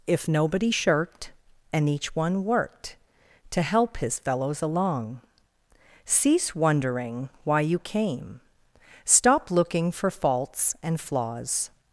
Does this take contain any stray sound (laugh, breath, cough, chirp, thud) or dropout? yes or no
no